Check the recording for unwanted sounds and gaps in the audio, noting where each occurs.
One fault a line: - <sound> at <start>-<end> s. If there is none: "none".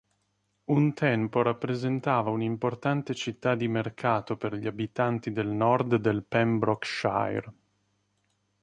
none